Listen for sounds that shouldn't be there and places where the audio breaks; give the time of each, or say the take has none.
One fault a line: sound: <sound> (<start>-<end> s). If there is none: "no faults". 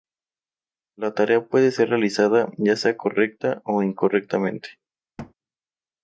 sound: thud (5.2-5.3 s)